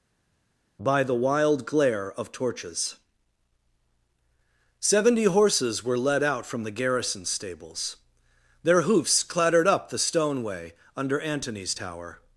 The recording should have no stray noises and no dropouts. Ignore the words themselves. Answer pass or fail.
pass